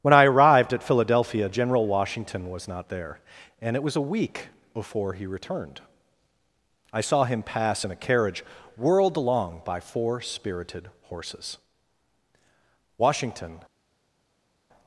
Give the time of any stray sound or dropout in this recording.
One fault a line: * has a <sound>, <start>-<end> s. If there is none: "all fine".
all fine